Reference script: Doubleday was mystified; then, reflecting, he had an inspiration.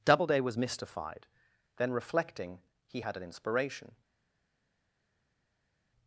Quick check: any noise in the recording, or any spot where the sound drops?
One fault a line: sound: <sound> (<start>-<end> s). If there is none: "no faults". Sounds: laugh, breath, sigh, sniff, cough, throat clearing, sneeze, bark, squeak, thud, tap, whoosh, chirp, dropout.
no faults